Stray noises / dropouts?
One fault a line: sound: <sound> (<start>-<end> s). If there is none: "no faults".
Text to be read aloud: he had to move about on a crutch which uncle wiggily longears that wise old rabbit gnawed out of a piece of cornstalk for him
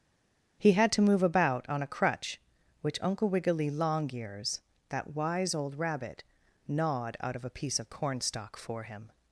no faults